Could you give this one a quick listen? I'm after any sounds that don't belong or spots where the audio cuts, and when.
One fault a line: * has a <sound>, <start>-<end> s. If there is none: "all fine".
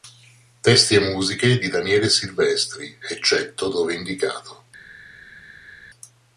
all fine